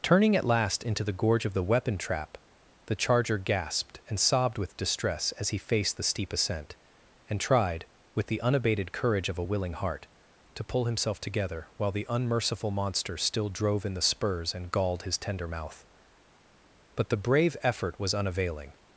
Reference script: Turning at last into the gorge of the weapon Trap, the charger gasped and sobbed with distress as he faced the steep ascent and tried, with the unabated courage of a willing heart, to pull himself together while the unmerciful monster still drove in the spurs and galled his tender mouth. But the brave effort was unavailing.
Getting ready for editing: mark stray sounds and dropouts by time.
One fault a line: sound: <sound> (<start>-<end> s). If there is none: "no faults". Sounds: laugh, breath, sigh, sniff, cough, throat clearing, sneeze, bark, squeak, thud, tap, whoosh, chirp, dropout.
no faults